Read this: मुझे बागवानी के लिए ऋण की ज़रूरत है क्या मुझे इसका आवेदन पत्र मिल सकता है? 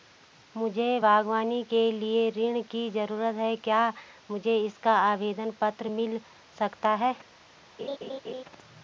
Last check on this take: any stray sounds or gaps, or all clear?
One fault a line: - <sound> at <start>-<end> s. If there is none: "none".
- laugh at 7.8-8.4 s